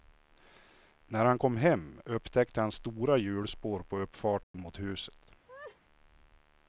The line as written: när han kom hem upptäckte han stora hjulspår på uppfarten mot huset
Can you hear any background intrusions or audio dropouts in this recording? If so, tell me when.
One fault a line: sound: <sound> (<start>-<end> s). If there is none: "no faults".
sound: dropout (4.4-4.5 s)
sound: laugh (5.5-5.8 s)